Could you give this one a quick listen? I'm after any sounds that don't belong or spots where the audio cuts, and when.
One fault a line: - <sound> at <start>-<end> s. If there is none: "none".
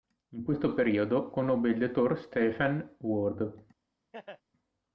- laugh at 4.1-4.4 s